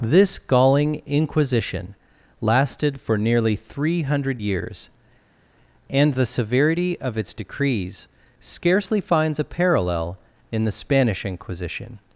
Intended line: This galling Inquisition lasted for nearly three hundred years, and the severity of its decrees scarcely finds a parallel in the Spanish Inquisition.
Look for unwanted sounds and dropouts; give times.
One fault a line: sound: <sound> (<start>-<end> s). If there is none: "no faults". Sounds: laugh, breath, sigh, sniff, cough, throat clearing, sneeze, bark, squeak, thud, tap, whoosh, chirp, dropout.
no faults